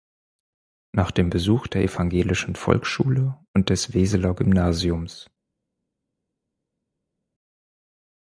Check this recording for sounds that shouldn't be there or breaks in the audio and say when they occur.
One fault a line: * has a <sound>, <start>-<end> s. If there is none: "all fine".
all fine